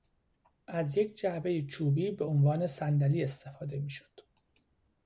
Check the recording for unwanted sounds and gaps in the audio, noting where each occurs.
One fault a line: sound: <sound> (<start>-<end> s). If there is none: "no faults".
no faults